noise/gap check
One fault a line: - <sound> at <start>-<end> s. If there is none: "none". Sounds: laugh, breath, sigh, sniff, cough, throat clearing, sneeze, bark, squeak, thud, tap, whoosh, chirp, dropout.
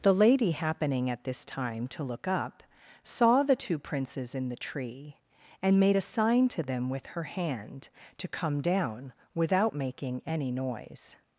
none